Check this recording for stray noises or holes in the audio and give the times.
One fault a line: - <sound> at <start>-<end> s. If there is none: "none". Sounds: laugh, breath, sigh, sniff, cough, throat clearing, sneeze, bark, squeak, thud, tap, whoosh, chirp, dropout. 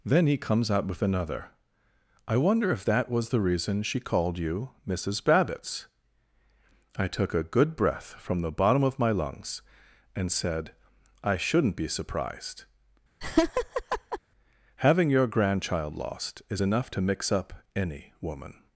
- laugh at 13.2-14.2 s